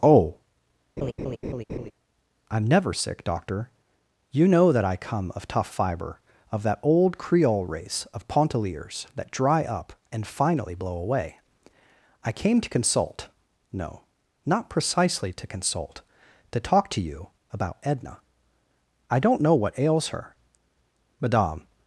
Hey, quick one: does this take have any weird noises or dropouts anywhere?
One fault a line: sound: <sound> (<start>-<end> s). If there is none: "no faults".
sound: laugh (1.0-1.9 s)